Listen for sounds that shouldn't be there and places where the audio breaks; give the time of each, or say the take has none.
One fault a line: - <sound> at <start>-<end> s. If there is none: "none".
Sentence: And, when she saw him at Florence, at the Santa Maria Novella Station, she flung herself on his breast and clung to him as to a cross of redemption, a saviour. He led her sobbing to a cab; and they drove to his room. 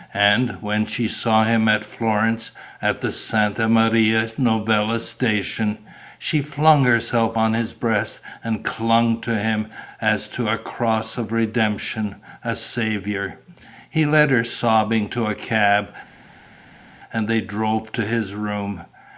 none